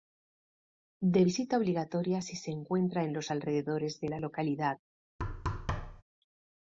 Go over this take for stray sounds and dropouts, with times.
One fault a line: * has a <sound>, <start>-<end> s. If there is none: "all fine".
* has a thud, 5.2-6.0 s